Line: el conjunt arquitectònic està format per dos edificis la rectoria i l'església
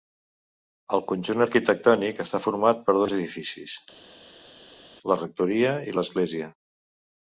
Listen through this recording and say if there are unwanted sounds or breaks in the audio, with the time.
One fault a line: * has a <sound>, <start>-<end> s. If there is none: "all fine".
all fine